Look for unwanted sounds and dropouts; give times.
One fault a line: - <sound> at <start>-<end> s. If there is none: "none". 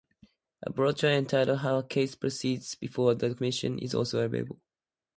none